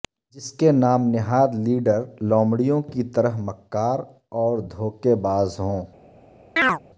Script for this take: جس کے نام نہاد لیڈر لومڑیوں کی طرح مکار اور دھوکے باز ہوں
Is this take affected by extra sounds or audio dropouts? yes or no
yes